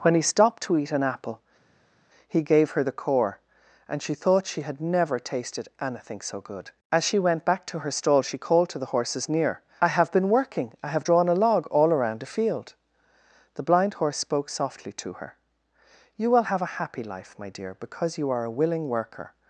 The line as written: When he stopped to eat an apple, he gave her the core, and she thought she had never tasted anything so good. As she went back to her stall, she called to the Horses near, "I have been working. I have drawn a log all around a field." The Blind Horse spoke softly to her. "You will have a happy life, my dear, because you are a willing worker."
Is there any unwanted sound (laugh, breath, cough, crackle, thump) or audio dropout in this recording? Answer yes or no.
no